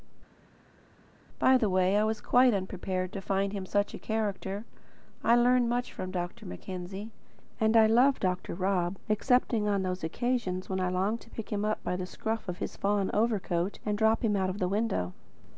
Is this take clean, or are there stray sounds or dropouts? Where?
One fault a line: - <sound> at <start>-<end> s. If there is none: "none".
none